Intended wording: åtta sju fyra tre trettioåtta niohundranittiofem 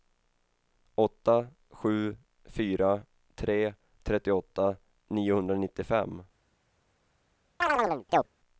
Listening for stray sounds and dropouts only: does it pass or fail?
fail